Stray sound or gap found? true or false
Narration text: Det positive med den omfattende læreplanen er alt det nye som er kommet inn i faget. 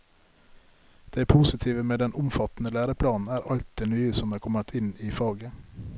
false